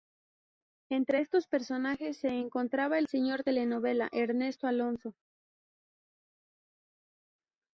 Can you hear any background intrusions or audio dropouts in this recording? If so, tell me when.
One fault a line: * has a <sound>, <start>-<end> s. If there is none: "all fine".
all fine